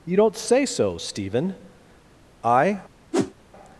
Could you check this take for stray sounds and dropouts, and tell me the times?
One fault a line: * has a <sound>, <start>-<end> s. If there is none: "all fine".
* has a whoosh, 3.1-3.3 s